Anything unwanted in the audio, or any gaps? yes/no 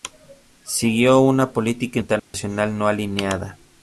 yes